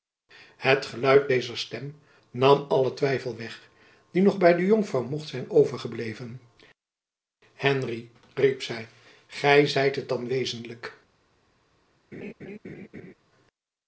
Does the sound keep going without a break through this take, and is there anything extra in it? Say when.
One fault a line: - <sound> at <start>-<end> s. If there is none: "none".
- laugh at 12.1-13.1 s